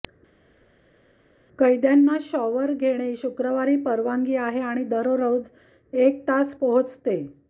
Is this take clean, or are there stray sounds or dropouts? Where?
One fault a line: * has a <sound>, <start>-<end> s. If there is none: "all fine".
all fine